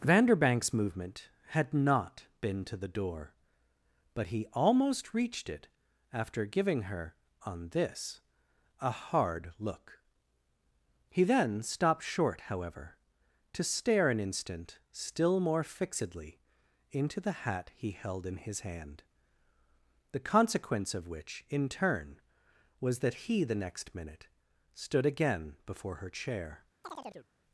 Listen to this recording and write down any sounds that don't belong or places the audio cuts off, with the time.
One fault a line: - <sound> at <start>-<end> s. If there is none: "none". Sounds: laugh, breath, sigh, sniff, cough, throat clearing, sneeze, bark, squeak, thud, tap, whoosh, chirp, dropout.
- chirp at 26.8-27.3 s